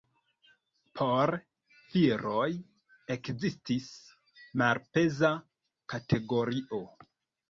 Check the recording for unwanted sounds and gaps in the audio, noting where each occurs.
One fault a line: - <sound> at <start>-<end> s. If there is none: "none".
none